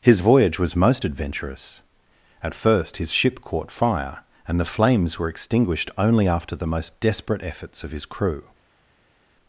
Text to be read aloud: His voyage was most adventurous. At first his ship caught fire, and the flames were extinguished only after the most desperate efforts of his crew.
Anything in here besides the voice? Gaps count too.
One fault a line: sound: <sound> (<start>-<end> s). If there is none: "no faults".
no faults